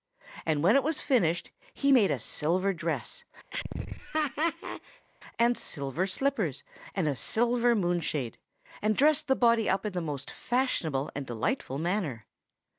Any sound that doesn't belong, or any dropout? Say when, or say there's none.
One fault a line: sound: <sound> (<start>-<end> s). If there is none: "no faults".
sound: laugh (3.5-5.1 s)